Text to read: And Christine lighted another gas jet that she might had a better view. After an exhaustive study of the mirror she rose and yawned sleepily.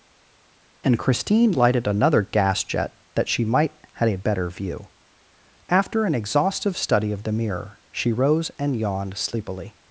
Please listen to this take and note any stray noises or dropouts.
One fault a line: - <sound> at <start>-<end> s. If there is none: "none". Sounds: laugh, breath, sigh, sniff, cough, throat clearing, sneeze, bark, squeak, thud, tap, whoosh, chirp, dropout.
none